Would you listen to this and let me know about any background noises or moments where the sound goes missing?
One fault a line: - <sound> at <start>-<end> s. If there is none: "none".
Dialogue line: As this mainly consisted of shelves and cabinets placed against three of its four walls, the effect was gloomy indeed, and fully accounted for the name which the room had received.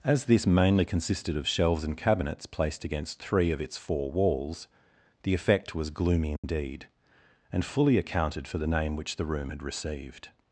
- dropout at 6.4-6.4 s